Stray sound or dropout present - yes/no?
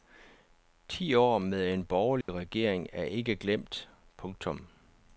yes